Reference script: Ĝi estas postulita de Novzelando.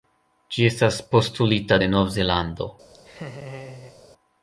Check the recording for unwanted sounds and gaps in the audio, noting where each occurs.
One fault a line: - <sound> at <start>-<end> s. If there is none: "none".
- laugh at 2.9-4.0 s